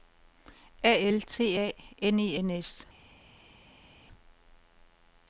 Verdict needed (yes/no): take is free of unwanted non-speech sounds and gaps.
yes